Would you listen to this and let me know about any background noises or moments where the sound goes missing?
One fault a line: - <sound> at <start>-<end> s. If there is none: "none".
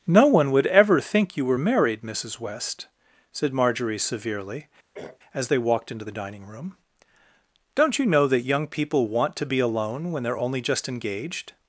- throat clearing at 4.9-5.2 s